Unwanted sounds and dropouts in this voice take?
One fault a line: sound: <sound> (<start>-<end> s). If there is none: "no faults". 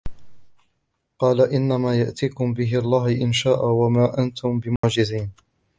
sound: dropout (4.8-4.8 s)